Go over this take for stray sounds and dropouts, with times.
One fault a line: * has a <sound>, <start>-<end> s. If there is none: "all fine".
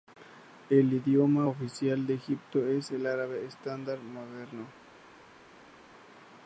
all fine